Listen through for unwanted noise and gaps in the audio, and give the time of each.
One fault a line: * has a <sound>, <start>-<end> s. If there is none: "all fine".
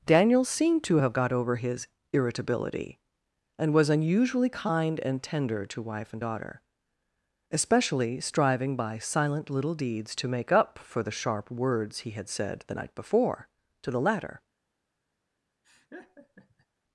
* has a laugh, 15.6-16.7 s